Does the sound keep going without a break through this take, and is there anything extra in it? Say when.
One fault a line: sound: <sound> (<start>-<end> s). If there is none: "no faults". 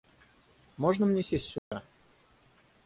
sound: dropout (1.6-1.7 s)